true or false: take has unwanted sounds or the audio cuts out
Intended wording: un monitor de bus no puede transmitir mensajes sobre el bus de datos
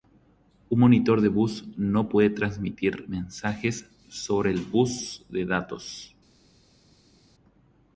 false